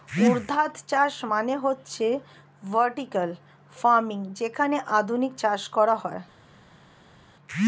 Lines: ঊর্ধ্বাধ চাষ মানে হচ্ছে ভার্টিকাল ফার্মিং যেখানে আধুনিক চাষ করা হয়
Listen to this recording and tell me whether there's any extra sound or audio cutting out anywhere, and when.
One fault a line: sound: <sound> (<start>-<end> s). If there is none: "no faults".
no faults